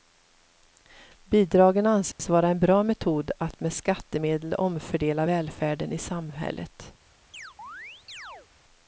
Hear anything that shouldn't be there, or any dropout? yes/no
yes